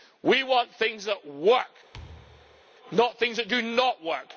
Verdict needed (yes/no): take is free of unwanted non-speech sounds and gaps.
no